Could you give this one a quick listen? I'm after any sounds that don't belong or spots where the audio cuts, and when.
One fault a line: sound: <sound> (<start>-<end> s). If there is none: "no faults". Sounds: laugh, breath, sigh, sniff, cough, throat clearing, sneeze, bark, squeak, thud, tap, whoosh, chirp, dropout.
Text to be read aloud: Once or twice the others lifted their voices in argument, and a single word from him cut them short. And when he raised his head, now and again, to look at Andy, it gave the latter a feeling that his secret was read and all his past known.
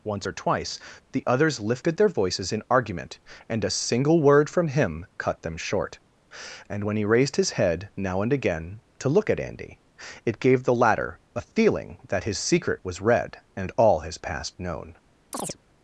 sound: chirp (15.3-15.6 s)